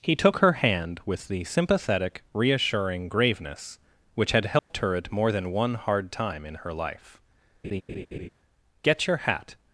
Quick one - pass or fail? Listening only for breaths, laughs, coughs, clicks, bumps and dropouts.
fail